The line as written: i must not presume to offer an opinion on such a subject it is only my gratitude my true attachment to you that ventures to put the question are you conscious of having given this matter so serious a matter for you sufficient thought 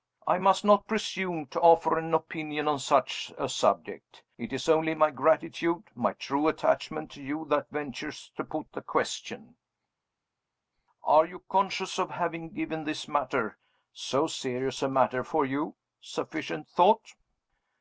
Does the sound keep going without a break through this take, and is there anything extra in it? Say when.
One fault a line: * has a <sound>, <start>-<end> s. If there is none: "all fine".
all fine